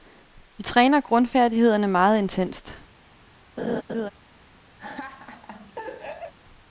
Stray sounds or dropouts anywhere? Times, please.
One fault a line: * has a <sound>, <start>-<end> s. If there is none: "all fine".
* has a laugh, 3.6-4.1 s
* has a laugh, 4.8-6.3 s